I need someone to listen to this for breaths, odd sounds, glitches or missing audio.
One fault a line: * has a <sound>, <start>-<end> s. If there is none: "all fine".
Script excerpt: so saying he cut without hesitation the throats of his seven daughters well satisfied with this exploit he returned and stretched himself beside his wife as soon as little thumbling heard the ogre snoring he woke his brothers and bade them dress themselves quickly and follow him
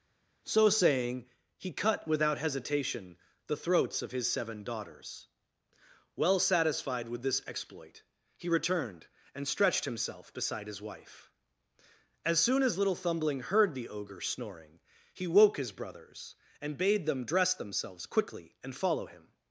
all fine